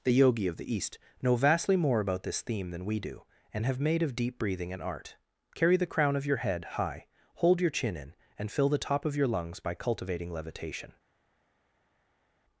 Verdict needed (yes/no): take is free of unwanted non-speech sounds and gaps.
yes